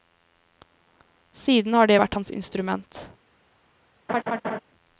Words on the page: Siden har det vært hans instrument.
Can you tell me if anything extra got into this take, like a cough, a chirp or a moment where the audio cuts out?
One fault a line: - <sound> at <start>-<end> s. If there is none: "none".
- laugh at 4.1-4.6 s